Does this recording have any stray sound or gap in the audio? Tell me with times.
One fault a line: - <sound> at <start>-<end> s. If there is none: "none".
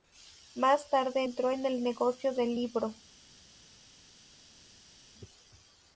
none